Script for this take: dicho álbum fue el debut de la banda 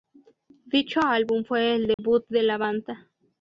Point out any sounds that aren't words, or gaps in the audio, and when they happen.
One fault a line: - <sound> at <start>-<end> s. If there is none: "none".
- dropout at 1.9-2.0 s